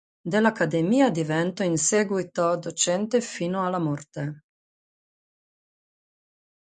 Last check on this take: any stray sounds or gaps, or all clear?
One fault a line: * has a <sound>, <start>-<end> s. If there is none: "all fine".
all fine